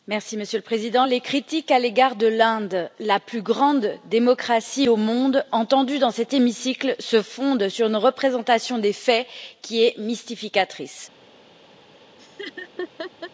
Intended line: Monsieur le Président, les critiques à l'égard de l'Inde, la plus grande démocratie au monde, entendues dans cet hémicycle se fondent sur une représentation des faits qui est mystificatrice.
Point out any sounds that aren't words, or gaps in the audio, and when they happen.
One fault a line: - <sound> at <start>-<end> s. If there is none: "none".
- laugh at 12.2-13.3 s